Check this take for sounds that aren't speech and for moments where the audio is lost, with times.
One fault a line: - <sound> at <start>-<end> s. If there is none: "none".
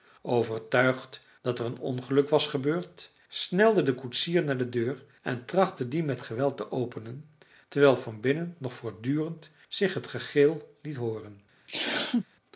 - sneeze at 11.7-12.2 s